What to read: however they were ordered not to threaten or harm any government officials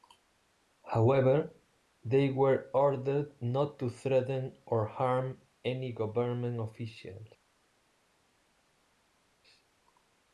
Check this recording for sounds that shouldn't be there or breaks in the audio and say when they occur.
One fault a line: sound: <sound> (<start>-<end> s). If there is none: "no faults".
no faults